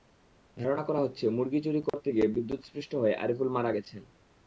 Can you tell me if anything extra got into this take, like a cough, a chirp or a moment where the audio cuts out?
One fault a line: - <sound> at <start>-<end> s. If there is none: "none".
- dropout at 1.9-1.9 s